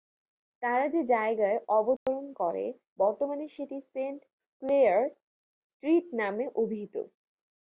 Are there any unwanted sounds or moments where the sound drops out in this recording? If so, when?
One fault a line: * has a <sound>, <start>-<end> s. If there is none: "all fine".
* has a dropout, 2.0-2.1 s